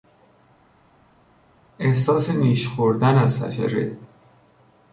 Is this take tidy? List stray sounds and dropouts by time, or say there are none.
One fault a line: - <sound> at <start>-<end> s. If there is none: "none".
none